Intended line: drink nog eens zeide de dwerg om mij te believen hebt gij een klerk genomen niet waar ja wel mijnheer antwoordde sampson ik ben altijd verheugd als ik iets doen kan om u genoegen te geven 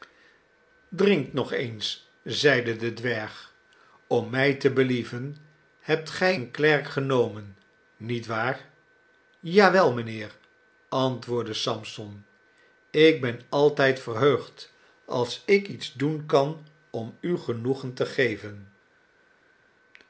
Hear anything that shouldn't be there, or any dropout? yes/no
no